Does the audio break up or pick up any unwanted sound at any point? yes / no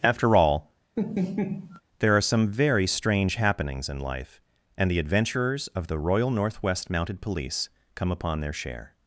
yes